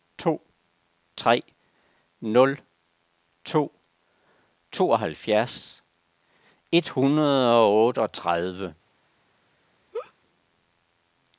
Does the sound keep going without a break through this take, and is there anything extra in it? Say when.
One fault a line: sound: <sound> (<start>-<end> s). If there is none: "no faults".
sound: laugh (9.9-10.1 s)